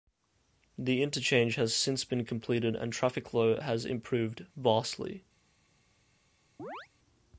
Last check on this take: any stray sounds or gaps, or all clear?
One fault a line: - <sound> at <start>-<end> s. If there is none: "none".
- chirp at 6.6-6.9 s